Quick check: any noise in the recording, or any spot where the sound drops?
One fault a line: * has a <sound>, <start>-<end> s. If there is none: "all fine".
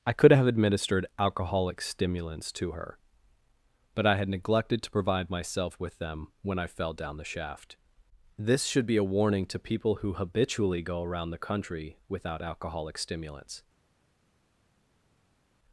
all fine